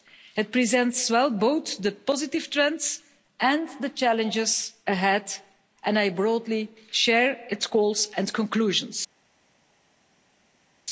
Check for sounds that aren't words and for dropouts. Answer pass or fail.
pass